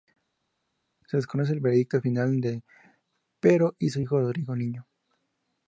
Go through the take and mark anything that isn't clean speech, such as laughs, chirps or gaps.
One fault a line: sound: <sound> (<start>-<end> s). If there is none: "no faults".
no faults